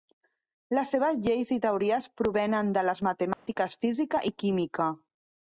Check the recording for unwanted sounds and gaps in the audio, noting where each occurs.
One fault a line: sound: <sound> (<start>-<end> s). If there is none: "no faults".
sound: dropout (3.3-3.5 s)